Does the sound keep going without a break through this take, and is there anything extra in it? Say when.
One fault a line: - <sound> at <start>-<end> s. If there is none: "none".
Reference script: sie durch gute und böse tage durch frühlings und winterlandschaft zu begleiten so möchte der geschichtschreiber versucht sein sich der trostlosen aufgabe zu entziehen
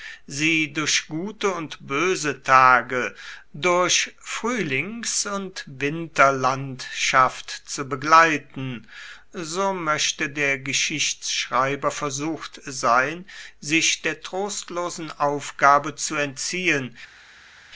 none